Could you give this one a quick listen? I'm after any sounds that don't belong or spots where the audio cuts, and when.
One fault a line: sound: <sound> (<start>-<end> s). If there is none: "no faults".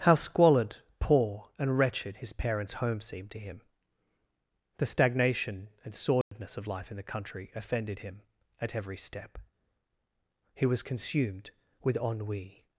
sound: dropout (6.2-6.3 s)